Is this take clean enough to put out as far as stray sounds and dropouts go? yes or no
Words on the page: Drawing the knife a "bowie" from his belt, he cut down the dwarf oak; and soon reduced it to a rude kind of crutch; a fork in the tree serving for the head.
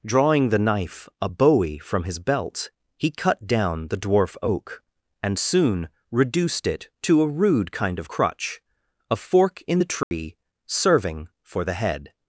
no